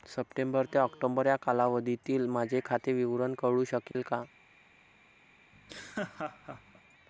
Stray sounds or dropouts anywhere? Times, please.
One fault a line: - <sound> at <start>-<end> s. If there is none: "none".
- dropout at 3.9-3.9 s
- laugh at 5.5-6.8 s